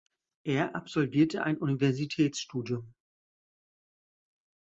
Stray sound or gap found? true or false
false